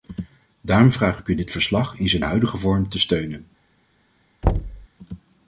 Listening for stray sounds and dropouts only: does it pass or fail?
fail